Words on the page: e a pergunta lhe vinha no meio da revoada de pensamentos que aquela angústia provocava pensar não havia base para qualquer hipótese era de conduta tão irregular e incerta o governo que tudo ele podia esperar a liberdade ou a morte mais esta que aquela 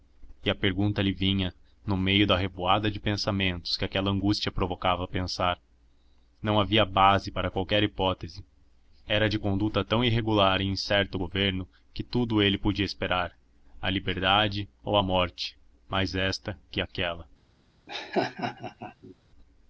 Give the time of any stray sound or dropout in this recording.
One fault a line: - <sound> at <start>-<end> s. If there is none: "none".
- laugh at 17.9-19.1 s